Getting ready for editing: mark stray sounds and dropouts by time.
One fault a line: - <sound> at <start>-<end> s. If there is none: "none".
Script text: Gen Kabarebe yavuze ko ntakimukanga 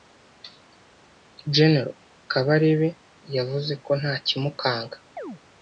- chirp at 5.2-5.4 s